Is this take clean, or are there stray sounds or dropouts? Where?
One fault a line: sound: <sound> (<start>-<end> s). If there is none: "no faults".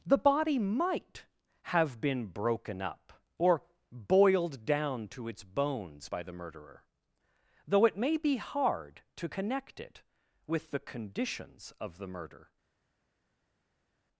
no faults